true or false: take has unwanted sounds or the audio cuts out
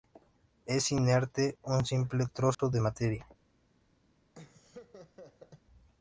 true